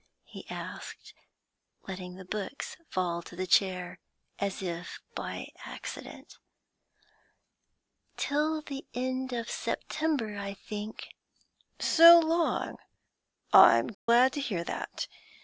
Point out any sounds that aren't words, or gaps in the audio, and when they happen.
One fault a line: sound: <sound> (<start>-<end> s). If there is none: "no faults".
sound: dropout (13.9-14.1 s)